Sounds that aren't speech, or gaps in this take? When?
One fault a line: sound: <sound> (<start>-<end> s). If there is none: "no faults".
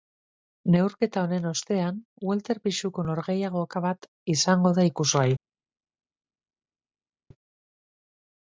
no faults